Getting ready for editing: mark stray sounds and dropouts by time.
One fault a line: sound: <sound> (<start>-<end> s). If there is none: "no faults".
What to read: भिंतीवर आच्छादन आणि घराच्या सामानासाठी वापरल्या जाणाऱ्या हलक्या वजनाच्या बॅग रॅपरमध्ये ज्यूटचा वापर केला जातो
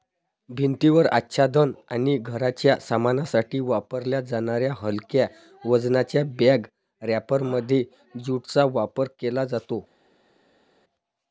no faults